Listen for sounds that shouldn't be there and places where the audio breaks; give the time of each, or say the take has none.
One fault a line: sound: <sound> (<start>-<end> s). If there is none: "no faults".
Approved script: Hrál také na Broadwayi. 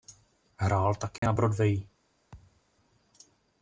sound: dropout (1.2-1.2 s)
sound: thud (2.3-2.6 s)